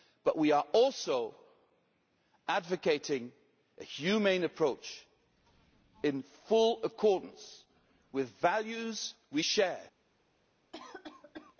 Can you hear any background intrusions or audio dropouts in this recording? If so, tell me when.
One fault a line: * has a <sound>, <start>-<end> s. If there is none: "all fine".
* has a cough, 10.7-11.6 s